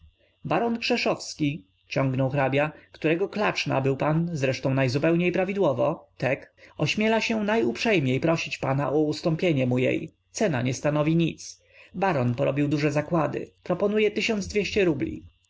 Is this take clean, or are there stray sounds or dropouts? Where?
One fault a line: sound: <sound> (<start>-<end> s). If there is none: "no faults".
no faults